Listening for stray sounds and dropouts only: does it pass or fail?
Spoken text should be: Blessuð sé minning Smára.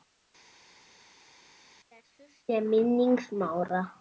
pass